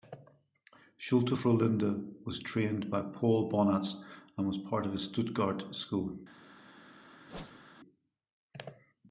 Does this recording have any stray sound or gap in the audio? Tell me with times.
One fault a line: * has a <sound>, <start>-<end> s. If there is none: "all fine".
* has a whoosh, 7.3-7.7 s